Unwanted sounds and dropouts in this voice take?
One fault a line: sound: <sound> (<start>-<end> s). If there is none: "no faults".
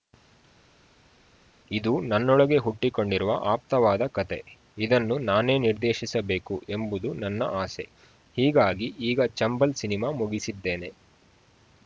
no faults